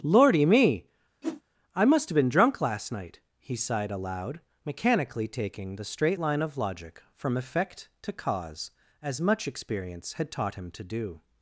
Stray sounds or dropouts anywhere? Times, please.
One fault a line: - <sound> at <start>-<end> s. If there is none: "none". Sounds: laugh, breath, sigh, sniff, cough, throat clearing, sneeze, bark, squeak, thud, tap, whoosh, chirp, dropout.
- whoosh at 1.2-1.4 s